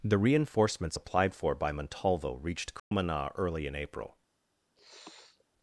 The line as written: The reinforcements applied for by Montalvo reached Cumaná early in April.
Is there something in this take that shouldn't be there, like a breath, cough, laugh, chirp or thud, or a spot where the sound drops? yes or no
yes